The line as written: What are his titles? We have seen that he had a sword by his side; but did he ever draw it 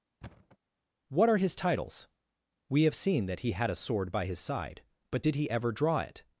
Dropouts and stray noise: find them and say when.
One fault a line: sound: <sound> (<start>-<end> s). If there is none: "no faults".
sound: thud (0.2-0.6 s)